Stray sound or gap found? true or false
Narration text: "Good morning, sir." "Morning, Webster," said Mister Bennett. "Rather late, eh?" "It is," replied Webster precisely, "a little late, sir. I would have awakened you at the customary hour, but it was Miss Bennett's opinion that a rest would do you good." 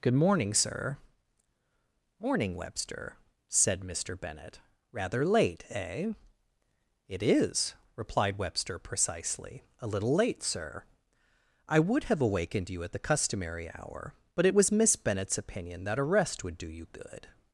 false